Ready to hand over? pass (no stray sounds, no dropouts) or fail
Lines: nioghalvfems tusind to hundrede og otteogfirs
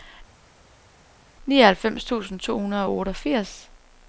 pass